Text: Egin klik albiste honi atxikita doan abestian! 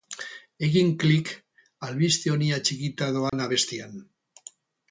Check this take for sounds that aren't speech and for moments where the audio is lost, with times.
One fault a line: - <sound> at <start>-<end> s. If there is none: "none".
- dropout at 3.3-3.3 s